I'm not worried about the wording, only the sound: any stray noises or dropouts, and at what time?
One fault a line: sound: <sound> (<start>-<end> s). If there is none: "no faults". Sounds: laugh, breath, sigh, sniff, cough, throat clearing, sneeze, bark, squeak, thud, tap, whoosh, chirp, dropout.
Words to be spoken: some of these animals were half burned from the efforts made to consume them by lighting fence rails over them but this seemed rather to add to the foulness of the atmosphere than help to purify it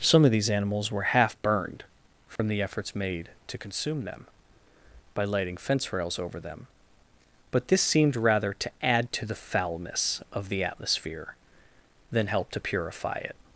sound: dropout (2.4-2.4 s)